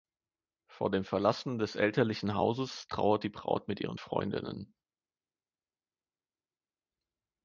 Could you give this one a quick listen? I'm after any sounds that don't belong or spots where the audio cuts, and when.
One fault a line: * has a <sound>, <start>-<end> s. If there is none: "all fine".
all fine